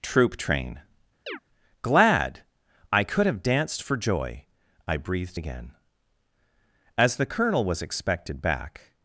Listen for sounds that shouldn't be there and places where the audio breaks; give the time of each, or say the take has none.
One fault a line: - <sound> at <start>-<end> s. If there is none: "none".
- chirp at 1.3-1.4 s